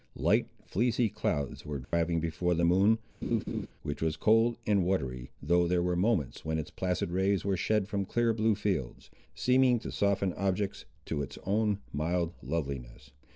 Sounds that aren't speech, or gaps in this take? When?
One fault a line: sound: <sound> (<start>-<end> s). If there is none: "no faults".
sound: dropout (1.8-1.9 s)
sound: laugh (3.2-3.7 s)